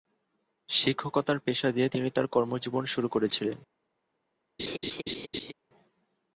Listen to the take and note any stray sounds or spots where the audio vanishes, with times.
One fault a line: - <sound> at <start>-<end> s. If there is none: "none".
- laugh at 4.6-5.5 s